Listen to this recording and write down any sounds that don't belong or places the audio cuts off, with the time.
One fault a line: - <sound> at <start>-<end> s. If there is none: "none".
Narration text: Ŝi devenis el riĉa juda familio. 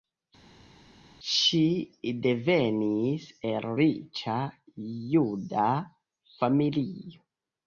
none